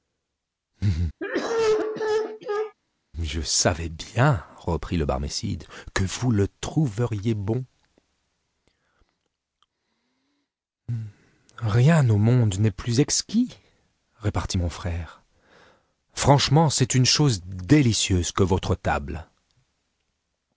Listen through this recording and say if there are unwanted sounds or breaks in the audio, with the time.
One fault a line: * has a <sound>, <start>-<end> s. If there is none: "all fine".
* has a cough, 1.2-2.7 s